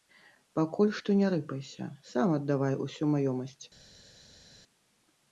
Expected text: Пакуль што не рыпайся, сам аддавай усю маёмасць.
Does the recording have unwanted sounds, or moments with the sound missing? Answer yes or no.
no